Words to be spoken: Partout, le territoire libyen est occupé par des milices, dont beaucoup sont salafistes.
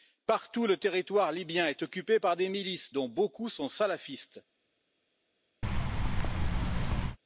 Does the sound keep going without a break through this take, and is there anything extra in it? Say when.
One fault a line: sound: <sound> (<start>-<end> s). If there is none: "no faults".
sound: thud (5.6-7.2 s)